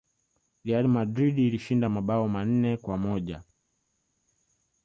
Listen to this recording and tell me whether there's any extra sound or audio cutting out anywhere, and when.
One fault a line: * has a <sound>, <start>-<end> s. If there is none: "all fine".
all fine